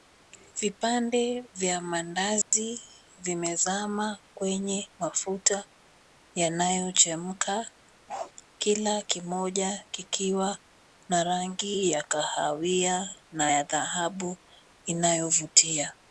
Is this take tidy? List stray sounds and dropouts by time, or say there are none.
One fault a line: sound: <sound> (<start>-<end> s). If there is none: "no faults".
sound: dropout (2.4-2.5 s)
sound: bark (8.1-8.3 s)